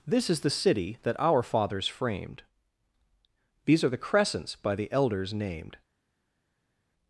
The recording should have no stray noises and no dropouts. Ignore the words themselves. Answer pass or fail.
pass